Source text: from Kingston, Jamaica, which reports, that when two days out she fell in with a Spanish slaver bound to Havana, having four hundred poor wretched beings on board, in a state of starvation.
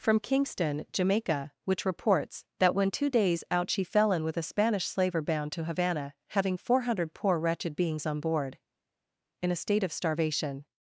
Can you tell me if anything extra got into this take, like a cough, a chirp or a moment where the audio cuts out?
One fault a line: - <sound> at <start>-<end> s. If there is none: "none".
none